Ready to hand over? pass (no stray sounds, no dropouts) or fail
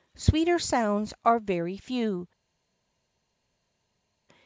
pass